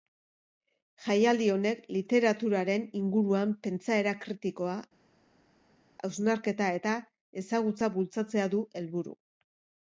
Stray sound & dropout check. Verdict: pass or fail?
pass